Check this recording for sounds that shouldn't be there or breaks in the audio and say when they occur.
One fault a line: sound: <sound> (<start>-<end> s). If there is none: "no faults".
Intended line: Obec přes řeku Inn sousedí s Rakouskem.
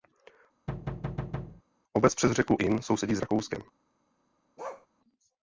sound: thud (0.7-1.6 s)
sound: bark (4.6-4.9 s)